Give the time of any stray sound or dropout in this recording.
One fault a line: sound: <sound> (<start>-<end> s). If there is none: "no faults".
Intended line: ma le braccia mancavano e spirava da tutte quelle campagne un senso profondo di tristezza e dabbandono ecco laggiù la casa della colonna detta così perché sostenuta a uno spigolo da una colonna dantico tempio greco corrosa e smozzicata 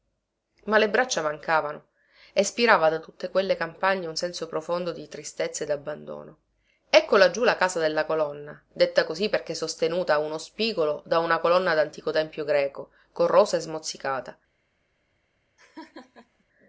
sound: laugh (15.6-16.4 s)